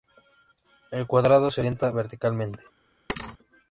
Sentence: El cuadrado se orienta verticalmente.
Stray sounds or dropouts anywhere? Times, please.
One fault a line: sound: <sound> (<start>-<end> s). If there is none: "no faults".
sound: thud (3.1-3.4 s)